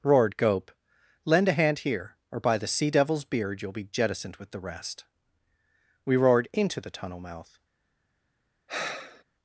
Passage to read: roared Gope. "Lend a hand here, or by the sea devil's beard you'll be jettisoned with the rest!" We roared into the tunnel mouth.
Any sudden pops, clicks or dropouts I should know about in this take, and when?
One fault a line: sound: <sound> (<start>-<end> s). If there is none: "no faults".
sound: sigh (8.7-9.2 s)